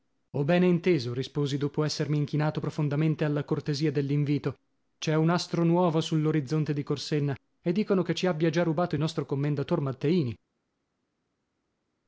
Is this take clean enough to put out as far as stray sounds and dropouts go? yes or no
yes